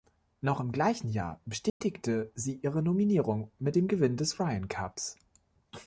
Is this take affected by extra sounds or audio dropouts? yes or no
yes